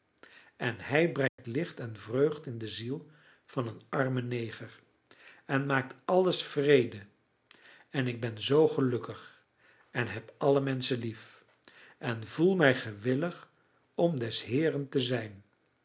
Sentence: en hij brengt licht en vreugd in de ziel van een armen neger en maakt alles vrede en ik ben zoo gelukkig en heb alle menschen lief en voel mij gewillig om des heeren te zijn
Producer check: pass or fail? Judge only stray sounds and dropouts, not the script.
fail